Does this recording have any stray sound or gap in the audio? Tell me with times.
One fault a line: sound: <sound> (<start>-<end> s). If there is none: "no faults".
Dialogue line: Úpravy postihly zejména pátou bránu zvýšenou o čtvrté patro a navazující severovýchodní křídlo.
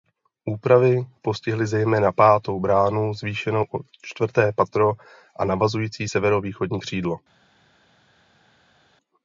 no faults